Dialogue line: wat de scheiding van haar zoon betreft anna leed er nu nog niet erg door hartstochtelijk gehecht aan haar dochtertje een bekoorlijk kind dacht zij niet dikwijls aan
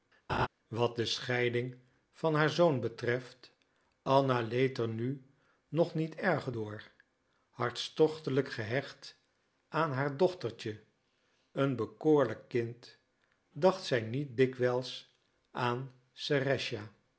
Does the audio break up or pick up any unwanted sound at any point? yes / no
yes